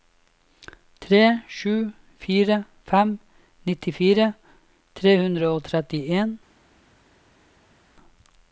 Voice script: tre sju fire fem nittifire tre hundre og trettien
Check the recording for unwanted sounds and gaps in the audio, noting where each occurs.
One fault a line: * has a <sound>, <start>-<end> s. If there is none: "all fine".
all fine